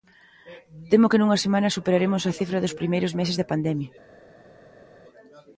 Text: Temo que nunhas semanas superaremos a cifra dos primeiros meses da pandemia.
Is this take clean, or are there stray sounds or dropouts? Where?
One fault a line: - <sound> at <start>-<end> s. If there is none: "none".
none